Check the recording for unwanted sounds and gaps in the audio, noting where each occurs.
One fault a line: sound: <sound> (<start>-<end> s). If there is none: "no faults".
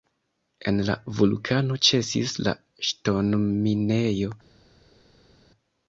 no faults